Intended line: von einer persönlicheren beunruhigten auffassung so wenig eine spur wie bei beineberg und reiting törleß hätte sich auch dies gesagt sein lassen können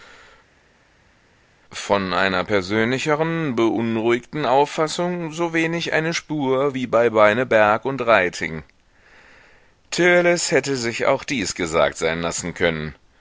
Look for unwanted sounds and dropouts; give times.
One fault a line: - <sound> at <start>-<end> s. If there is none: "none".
none